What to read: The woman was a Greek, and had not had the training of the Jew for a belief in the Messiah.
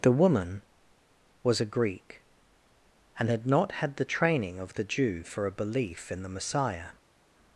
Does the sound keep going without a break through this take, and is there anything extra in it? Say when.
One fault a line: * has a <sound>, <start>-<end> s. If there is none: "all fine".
all fine